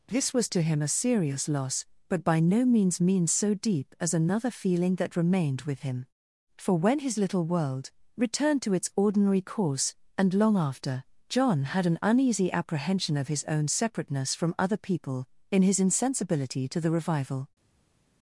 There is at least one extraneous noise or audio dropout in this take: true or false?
false